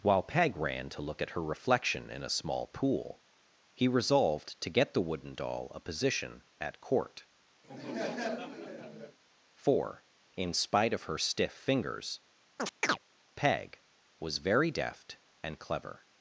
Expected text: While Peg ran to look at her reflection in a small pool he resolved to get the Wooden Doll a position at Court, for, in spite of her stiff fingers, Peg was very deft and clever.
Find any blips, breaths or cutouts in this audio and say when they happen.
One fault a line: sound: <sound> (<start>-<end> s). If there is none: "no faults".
sound: laugh (7.6-9.2 s)
sound: chirp (12.6-13.0 s)